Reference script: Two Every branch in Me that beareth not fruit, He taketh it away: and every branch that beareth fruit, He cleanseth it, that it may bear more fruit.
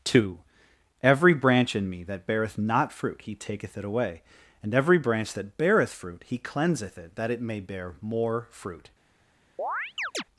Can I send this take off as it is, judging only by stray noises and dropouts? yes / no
no